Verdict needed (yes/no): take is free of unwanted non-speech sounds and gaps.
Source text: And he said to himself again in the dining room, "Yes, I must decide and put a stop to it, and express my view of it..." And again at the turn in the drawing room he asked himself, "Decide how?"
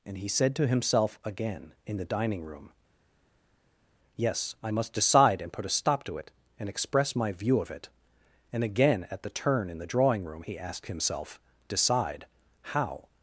yes